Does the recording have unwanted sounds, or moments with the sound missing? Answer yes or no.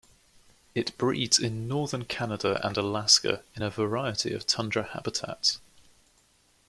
no